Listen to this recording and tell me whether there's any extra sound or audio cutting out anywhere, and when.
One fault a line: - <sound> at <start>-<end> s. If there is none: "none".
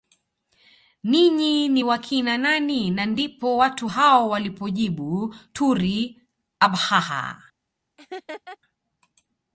- laugh at 8.0-8.6 s